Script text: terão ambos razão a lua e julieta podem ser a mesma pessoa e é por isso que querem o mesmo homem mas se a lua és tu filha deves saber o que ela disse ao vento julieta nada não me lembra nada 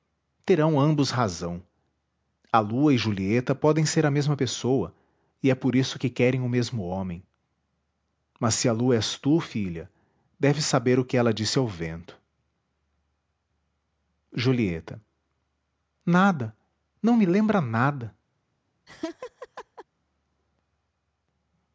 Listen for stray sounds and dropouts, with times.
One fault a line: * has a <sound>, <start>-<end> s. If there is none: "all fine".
* has a laugh, 18.9-19.9 s